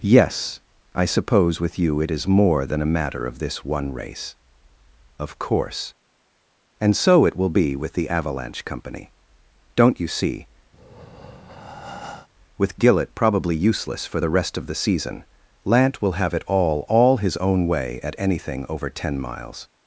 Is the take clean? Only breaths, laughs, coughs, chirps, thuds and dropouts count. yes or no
no